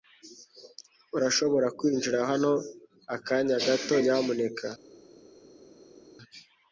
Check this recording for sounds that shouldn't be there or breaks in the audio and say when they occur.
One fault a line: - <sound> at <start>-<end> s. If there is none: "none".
none